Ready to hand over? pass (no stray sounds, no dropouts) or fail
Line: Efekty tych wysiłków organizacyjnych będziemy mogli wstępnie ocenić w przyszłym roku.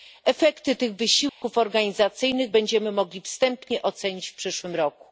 fail